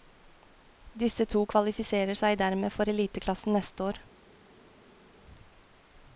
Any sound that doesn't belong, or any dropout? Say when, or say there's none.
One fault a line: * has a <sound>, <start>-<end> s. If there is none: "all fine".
all fine